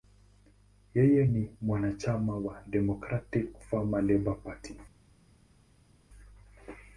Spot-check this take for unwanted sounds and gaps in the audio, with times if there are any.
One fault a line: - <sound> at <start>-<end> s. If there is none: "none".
none